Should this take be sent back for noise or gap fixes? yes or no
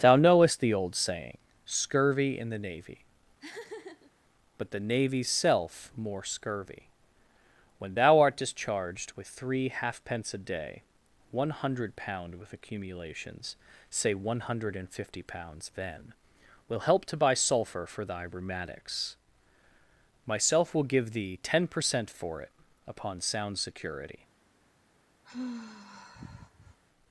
yes